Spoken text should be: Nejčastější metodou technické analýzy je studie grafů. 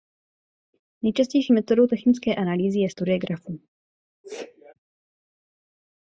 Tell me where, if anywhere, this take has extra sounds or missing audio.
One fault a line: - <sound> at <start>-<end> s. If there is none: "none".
- sneeze at 4.2-4.7 s